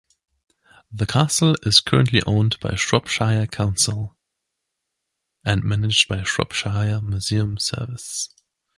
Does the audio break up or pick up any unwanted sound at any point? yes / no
no